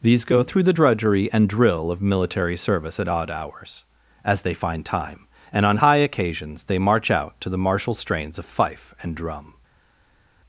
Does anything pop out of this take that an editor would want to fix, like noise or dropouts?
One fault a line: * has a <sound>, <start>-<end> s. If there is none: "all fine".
all fine